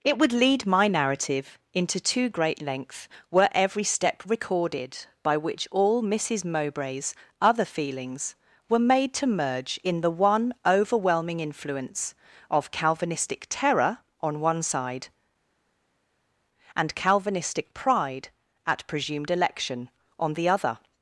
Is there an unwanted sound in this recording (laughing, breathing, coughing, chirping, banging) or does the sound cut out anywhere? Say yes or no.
no